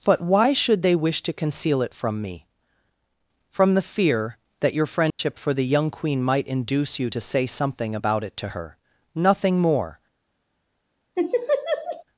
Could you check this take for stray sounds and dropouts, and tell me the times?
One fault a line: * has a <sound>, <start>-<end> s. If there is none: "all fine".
* has a dropout, 5.1-5.2 s
* has a laugh, 11.1-12.0 s